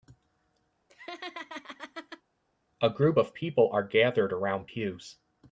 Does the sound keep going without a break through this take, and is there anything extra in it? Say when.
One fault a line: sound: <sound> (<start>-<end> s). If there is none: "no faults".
sound: laugh (0.9-2.2 s)